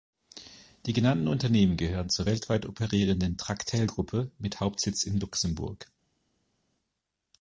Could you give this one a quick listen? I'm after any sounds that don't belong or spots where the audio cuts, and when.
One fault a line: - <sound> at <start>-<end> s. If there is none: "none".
none